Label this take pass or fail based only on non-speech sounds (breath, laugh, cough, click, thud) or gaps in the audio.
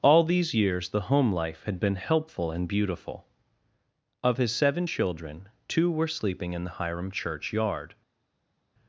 pass